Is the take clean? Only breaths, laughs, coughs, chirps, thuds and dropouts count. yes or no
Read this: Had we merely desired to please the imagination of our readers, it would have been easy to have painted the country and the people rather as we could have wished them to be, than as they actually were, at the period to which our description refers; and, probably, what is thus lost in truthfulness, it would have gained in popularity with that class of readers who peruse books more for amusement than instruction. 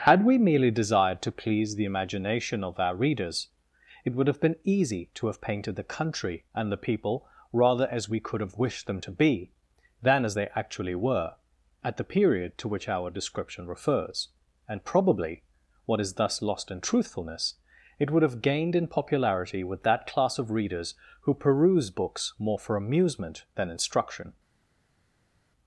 yes